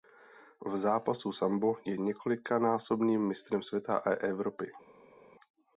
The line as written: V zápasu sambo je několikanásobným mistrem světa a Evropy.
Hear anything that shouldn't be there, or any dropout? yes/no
no